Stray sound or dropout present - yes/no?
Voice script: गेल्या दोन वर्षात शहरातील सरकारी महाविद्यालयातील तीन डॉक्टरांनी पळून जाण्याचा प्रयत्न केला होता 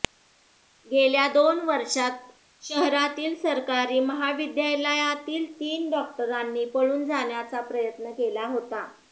no